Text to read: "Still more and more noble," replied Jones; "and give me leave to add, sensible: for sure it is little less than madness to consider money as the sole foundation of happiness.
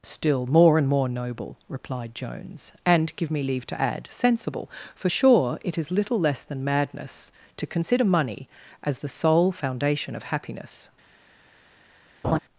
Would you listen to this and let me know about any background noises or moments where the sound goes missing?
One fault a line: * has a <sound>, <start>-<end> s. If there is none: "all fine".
* has a laugh, 12.2-12.4 s